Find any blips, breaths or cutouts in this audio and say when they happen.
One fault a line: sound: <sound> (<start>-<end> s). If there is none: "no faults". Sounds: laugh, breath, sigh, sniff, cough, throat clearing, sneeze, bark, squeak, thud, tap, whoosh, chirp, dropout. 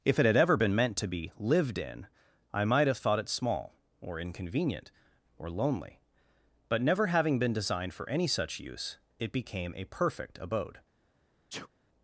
sound: sneeze (11.5-11.7 s)